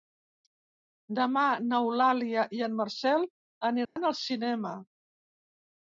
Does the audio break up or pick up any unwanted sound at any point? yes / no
yes